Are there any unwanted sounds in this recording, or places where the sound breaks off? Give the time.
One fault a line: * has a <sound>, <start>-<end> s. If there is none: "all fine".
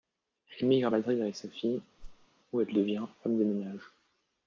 * has a whoosh, 2.0-2.3 s